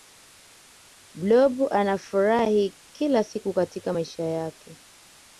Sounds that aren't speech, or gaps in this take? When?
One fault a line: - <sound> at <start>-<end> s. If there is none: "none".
none